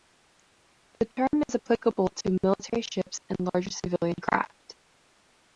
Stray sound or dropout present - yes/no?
no